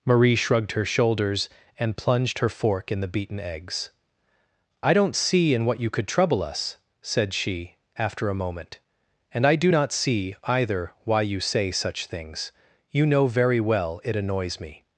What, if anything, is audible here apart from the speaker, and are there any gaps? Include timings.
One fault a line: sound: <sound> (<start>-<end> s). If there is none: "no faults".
no faults